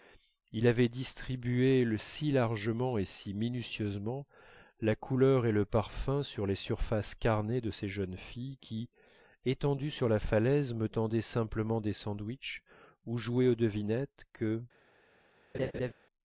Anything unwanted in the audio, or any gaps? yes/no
yes